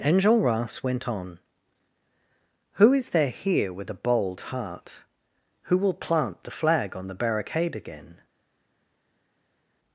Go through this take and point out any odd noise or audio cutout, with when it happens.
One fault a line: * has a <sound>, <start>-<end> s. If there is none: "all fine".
all fine